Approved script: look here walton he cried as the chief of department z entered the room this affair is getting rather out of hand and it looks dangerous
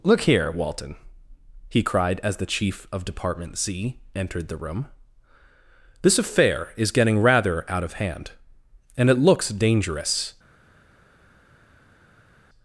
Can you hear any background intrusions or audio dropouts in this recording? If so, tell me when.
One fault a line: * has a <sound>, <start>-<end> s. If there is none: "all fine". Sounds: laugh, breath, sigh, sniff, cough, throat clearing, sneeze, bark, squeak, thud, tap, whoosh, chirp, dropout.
all fine